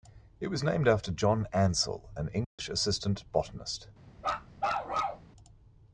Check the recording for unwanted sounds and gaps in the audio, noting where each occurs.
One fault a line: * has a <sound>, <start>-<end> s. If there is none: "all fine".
* has a dropout, 2.4-2.6 s
* has a bark, 4.2-5.3 s